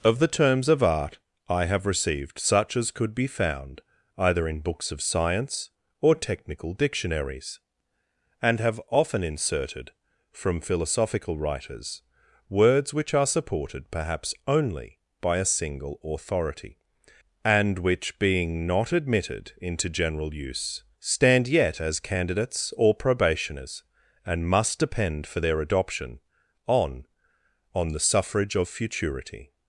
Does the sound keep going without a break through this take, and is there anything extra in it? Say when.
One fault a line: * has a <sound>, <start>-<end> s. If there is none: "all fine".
all fine